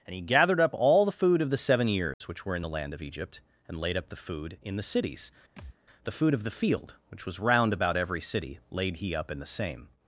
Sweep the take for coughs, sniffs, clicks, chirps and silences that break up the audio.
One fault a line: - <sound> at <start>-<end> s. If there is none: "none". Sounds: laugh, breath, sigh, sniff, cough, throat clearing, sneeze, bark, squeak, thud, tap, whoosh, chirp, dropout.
- dropout at 2.1-2.2 s
- thud at 5.6-5.8 s